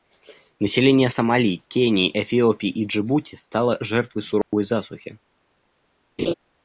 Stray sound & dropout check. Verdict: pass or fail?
fail